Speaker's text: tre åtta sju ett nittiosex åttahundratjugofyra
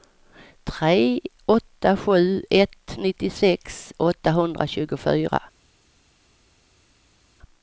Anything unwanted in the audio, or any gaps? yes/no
no